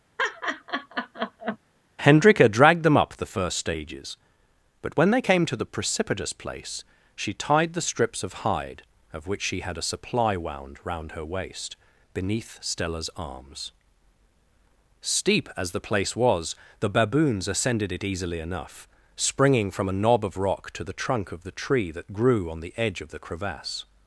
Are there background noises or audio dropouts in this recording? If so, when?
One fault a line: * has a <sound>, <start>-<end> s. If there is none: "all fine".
* has a laugh, 0.2-1.6 s